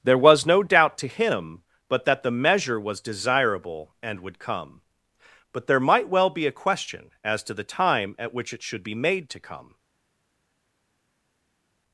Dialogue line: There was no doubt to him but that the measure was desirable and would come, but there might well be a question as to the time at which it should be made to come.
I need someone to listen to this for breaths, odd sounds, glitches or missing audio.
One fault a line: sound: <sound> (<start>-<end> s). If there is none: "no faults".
no faults